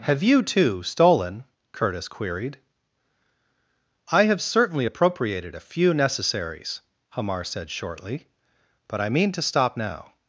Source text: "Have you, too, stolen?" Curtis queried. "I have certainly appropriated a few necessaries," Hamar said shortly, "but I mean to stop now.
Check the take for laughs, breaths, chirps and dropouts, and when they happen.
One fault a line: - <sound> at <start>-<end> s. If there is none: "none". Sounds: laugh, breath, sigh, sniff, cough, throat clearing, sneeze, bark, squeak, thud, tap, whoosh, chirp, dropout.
none